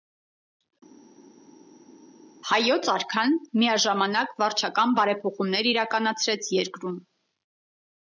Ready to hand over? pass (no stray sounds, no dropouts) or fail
pass